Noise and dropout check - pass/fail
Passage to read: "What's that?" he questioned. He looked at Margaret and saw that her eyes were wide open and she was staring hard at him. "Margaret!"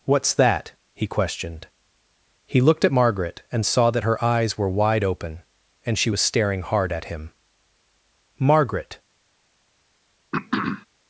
fail